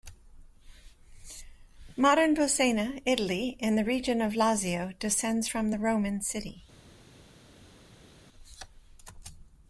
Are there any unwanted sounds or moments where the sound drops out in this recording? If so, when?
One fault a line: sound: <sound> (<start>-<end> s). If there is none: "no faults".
no faults